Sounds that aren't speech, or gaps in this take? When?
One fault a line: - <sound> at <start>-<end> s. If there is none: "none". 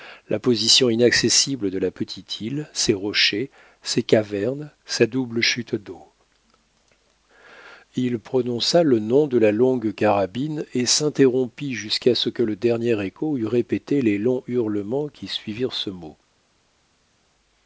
none